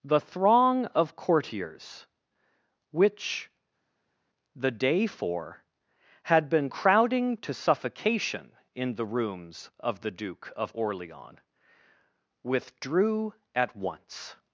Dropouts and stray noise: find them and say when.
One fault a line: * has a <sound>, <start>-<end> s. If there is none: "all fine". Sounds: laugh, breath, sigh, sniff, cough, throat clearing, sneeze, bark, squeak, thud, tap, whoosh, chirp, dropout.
all fine